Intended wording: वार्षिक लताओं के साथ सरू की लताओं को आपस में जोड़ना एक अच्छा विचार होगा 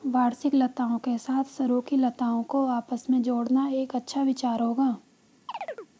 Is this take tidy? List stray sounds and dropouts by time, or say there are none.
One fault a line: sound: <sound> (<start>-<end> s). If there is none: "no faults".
sound: chirp (5.5-5.9 s)